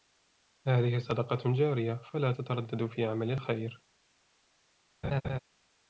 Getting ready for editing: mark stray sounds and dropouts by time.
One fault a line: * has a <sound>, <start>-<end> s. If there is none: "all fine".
* has a laugh, 5.0-5.4 s